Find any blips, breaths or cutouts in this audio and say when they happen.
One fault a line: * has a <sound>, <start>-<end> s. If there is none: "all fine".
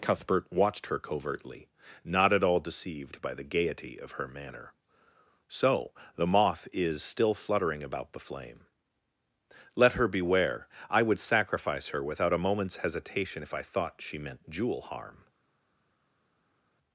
all fine